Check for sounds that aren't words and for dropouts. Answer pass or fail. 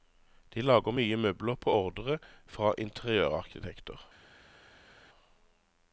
pass